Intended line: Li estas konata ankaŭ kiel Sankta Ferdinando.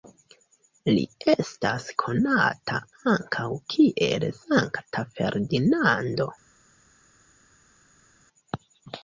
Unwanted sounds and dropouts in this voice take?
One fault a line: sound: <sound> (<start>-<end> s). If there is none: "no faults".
no faults